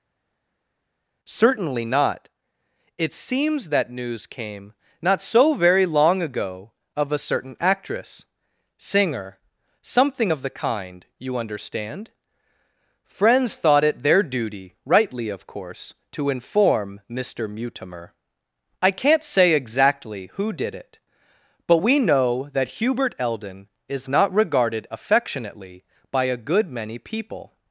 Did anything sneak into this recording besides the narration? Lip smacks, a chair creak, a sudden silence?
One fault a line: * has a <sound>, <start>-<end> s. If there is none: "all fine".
all fine